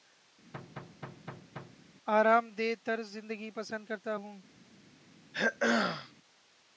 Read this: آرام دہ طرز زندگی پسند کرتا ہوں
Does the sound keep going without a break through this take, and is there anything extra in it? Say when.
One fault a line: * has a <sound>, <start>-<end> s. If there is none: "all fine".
* has a thud, 0.5-1.9 s
* has a throat clearing, 5.3-6.1 s